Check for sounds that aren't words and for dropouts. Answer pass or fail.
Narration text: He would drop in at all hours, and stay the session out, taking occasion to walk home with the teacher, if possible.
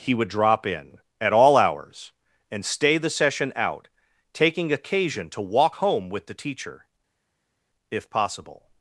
pass